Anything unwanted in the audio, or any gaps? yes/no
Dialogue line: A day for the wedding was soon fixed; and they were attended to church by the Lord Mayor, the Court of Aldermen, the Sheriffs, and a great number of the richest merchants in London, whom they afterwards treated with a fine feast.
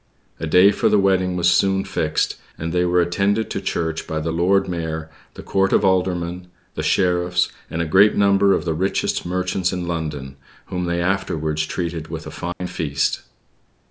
yes